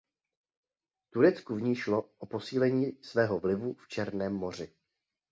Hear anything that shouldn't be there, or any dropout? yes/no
no